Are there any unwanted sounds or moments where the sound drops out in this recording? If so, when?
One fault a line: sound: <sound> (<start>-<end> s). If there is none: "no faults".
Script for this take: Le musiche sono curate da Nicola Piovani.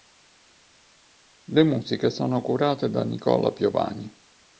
no faults